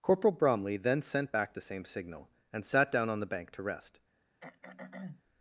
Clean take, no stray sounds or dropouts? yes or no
no